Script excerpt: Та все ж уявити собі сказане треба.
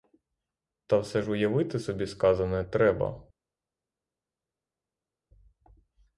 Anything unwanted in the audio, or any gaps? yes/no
no